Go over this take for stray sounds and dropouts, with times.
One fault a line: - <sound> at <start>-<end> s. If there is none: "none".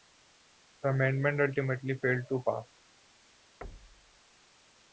- thud at 3.6-4.2 s